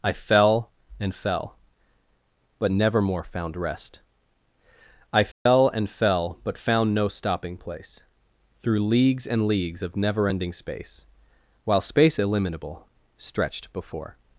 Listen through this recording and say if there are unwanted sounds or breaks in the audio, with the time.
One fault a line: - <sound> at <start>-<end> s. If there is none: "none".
- dropout at 5.3-5.5 s